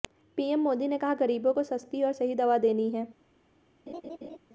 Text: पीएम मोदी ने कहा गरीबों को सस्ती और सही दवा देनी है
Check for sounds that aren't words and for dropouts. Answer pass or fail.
fail